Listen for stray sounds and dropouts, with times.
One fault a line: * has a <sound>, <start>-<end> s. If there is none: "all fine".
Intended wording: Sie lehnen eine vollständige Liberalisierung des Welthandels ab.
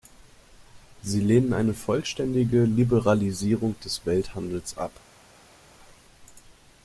all fine